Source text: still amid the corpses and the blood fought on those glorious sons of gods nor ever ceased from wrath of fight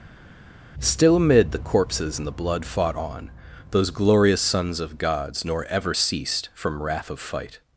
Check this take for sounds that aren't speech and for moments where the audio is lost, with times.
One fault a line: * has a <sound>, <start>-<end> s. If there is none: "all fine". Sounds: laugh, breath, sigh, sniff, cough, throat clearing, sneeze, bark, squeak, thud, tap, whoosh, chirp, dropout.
all fine